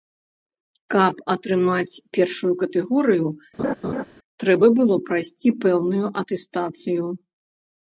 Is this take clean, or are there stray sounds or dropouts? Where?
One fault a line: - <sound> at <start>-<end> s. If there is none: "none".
- laugh at 3.6-4.0 s